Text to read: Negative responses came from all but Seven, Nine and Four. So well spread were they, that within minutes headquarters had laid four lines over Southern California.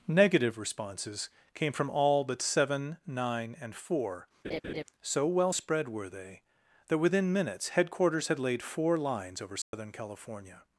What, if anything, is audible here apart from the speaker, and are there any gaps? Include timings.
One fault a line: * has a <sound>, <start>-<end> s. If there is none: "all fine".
* has a laugh, 4.4-4.8 s
* has a dropout, 9.6-9.7 s